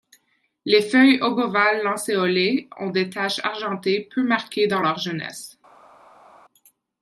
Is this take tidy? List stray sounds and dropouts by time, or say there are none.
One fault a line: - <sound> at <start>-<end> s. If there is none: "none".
none